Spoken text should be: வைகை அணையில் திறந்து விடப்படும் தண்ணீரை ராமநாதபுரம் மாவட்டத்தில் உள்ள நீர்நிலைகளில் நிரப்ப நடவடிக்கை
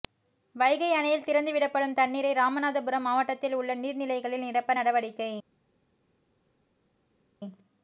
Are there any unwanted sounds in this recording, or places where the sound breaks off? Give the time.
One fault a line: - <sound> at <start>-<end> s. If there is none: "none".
none